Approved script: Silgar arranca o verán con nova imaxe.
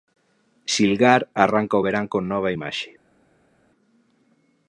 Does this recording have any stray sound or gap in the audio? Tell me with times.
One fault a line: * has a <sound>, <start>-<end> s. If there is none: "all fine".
all fine